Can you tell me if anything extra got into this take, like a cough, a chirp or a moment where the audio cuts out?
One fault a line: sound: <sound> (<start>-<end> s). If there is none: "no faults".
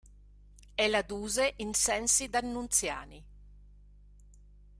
no faults